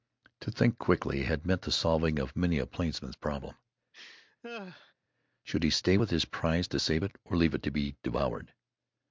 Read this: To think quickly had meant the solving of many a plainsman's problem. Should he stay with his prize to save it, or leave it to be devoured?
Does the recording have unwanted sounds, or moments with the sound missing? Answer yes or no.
yes